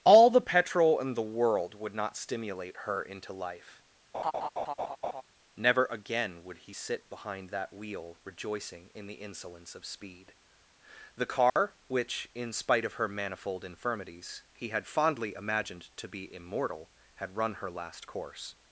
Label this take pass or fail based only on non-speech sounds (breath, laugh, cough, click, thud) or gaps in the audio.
fail